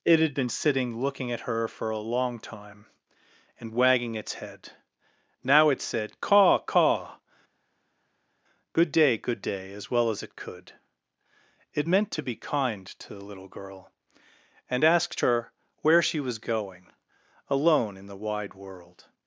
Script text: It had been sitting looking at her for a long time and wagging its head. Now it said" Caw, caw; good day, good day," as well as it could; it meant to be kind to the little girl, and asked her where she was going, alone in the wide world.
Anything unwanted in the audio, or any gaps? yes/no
no